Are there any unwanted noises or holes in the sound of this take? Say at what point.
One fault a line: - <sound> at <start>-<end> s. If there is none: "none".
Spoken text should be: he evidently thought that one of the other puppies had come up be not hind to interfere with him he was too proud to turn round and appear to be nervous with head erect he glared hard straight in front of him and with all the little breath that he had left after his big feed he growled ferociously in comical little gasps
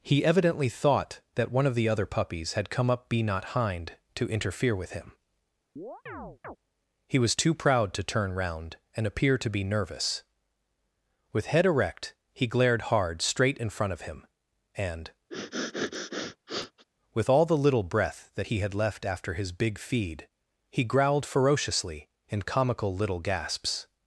- chirp at 5.8-6.6 s
- sniff at 15.3-16.8 s